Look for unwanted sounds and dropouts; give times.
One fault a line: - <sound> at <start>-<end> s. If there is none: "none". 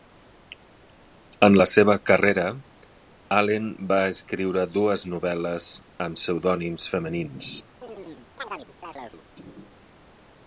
- chirp at 7.8-9.3 s